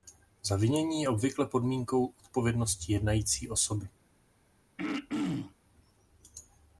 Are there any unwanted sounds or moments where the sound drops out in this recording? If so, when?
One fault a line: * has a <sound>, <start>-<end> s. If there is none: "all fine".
* has a throat clearing, 4.8-5.5 s